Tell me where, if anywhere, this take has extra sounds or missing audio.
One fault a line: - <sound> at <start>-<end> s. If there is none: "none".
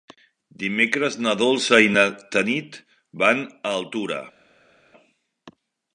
none